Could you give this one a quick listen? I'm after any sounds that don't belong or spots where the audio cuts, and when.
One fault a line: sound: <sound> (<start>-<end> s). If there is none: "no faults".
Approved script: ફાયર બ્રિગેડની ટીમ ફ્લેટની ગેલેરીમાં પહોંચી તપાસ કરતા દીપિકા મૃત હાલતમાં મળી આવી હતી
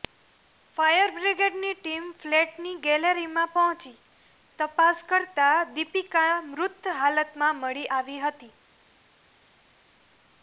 no faults